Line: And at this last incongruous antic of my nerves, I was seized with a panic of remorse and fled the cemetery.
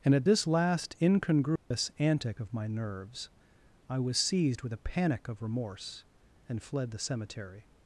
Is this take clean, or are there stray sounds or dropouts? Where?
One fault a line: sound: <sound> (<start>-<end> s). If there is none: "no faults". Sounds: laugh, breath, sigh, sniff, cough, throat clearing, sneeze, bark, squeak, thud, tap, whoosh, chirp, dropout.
sound: dropout (1.6-1.7 s)